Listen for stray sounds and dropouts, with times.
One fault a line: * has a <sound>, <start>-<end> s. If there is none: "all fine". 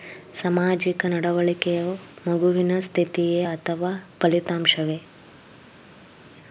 all fine